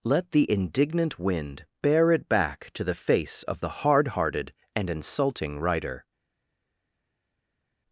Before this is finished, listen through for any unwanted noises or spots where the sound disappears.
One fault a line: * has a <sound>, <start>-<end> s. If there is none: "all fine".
all fine